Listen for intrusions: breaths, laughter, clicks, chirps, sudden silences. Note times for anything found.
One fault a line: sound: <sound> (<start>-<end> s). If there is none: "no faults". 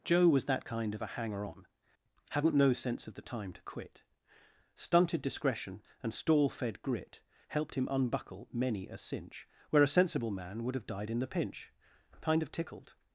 no faults